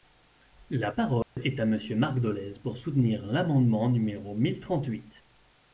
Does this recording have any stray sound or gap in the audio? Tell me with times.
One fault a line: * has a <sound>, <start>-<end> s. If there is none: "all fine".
* has a dropout, 1.2-1.4 s